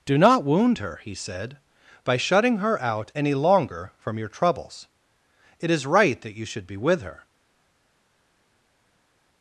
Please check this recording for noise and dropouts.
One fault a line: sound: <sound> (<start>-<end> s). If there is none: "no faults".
no faults